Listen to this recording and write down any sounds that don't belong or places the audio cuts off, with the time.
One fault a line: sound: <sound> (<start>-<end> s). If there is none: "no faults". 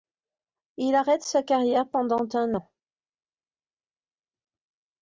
no faults